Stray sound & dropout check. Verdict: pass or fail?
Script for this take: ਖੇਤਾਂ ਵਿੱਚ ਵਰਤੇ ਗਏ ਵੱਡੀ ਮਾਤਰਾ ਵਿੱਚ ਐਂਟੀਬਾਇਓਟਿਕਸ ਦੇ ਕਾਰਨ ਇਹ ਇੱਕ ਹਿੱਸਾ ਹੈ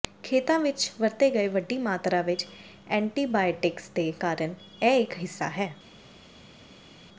pass